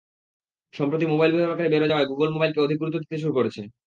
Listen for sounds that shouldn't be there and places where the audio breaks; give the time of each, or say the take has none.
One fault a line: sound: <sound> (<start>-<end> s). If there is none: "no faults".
no faults